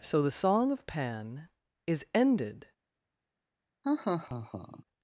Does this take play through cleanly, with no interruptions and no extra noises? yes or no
no